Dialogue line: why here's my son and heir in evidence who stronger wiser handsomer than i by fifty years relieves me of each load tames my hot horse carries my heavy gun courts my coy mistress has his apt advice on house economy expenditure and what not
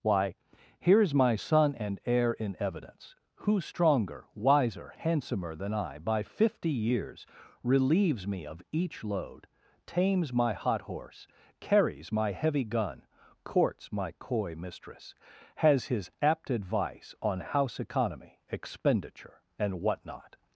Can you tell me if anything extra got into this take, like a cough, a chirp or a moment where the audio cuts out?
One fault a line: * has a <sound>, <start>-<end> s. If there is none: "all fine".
all fine